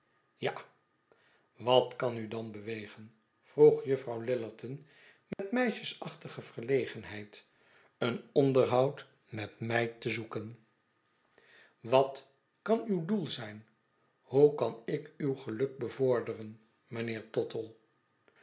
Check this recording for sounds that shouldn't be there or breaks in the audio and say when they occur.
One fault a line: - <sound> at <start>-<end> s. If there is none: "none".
- dropout at 5.3-5.4 s